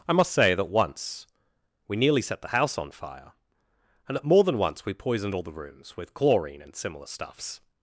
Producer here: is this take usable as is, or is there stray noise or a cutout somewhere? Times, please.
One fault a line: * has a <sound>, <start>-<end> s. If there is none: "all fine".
all fine